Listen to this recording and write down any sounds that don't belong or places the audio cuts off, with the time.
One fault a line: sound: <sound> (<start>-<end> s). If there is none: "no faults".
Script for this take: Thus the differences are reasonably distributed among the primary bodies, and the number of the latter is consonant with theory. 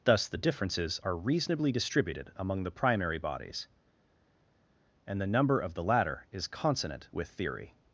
no faults